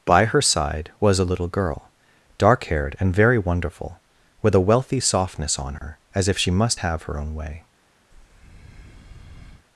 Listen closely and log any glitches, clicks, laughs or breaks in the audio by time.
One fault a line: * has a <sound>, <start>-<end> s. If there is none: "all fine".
* has a dropout, 5.8-5.8 s
* has a breath, 8.1-9.7 s